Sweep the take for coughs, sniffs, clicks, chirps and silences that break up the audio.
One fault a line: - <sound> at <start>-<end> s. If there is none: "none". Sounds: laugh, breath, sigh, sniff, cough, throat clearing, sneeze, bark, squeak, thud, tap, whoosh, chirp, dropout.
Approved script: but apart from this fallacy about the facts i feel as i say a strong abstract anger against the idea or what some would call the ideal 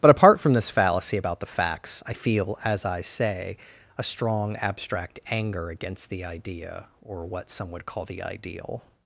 none